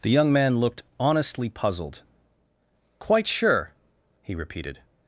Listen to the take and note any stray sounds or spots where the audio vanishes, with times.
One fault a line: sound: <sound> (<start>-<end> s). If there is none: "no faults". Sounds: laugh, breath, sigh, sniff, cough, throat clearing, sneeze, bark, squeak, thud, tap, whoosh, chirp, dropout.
no faults